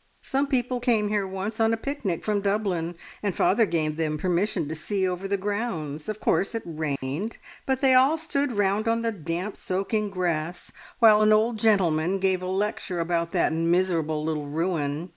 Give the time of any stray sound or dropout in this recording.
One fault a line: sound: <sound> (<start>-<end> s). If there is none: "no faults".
sound: dropout (7.0-7.0 s)